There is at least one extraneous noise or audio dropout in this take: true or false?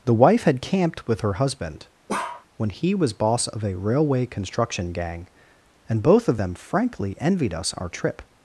true